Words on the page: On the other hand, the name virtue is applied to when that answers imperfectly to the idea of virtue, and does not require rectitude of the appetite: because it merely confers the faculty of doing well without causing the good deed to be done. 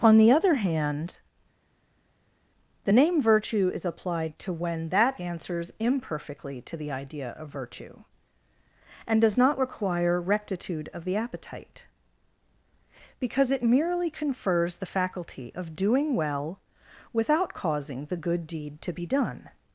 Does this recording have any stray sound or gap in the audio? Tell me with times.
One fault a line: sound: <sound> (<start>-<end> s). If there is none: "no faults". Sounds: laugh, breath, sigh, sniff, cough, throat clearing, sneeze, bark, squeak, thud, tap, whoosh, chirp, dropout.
no faults